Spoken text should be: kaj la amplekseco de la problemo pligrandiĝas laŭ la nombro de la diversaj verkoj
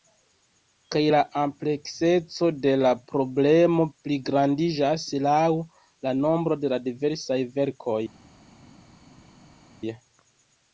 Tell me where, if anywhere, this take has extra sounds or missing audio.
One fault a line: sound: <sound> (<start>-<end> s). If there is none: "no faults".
no faults